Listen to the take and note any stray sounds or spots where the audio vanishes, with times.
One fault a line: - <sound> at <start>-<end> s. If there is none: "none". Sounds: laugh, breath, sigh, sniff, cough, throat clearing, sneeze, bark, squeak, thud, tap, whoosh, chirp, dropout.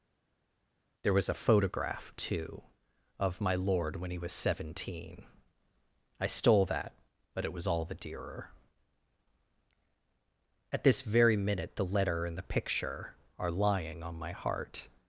none